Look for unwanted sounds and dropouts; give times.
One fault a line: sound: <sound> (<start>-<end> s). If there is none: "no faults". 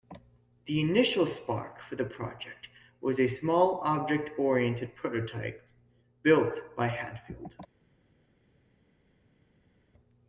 no faults